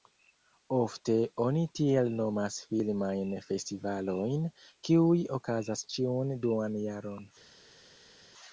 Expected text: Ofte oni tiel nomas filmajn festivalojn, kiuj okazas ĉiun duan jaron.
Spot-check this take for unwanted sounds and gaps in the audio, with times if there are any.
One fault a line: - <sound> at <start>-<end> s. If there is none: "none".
none